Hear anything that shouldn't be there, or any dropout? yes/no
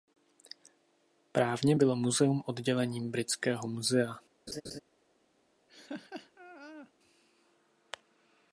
yes